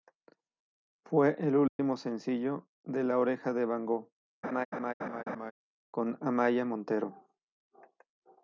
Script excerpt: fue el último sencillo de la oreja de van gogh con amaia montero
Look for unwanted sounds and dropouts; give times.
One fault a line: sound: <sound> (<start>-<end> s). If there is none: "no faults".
sound: dropout (1.7-1.8 s)
sound: laugh (4.4-5.5 s)